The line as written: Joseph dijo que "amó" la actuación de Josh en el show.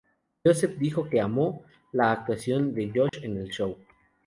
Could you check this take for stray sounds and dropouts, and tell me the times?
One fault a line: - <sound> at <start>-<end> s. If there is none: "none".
- dropout at 3.1-3.1 s